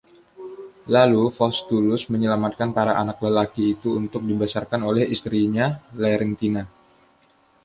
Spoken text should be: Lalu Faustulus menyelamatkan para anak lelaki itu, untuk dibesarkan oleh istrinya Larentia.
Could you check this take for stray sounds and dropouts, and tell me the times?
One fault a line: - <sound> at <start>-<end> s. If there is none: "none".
none